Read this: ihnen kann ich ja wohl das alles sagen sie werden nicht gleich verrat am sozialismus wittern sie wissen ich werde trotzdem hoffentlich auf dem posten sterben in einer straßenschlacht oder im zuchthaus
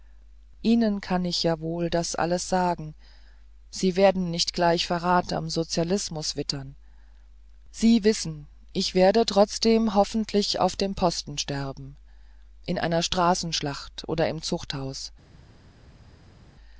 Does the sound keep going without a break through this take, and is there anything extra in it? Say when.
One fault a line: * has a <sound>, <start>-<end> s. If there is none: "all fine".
all fine